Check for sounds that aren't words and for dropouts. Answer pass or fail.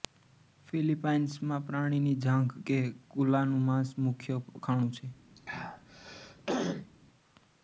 fail